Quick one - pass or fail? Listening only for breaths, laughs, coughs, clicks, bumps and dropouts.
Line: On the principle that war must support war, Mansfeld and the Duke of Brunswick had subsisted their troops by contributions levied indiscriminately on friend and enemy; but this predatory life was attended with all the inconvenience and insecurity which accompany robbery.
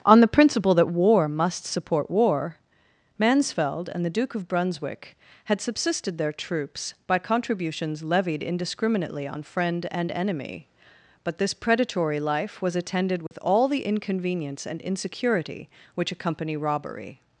fail